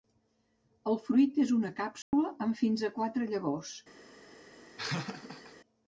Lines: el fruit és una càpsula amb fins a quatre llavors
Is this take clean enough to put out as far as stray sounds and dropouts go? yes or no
no